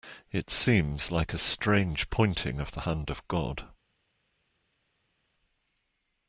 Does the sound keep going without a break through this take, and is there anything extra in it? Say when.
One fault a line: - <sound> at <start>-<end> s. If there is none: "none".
none